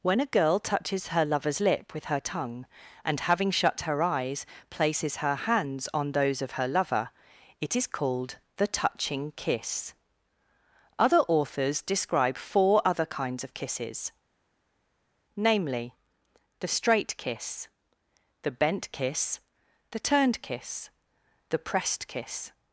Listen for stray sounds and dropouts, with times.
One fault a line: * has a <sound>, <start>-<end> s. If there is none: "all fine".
all fine